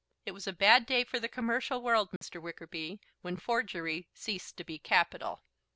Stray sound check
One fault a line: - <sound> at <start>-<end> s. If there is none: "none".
- dropout at 2.2-2.2 s